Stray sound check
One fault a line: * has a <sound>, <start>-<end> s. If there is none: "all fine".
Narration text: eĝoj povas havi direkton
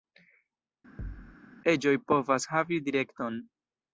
* has a thud, 1.0-1.4 s